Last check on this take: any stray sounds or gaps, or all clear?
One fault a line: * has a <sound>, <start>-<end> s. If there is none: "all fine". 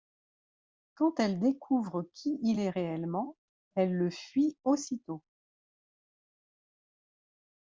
all fine